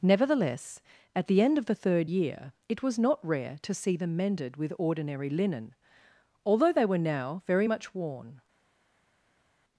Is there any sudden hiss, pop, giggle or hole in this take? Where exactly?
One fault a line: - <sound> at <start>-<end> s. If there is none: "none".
none